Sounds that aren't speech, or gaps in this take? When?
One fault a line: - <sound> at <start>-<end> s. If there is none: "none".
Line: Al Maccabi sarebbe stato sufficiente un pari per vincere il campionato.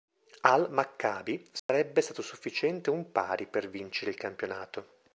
- dropout at 1.6-1.7 s